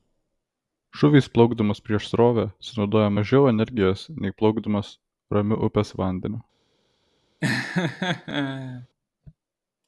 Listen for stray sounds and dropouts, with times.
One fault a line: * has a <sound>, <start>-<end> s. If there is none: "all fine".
* has a laugh, 7.4-8.9 s